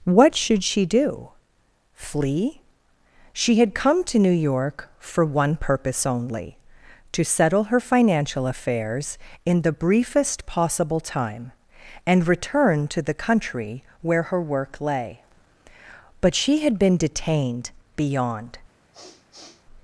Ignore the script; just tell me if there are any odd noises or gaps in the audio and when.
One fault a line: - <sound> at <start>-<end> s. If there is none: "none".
- sniff at 18.9-19.7 s